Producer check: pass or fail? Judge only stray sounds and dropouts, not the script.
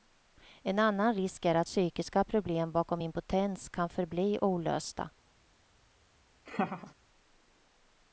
fail